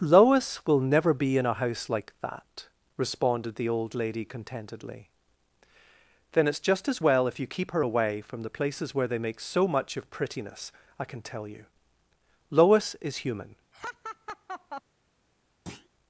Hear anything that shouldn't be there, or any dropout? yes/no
yes